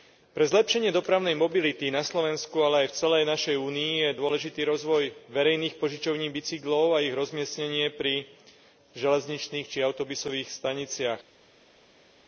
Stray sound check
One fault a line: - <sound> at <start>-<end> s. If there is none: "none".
none